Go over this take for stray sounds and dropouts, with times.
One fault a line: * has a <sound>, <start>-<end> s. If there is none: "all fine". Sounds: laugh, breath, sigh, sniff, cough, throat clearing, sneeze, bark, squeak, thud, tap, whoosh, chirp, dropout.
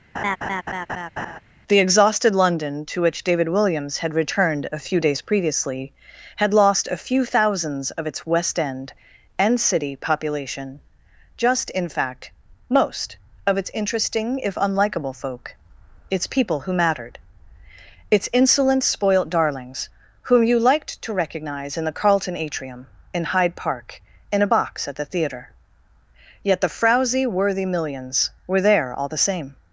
* has a laugh, 0.1-1.4 s